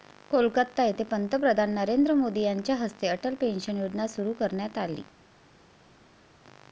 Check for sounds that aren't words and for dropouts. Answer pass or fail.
pass